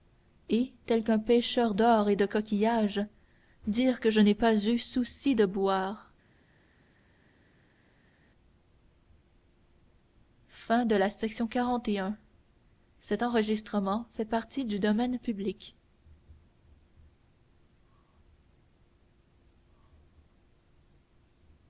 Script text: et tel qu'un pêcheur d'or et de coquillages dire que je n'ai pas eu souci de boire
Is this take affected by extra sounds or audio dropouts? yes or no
no